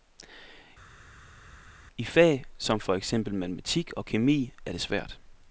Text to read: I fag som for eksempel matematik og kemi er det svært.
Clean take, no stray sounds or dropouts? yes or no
yes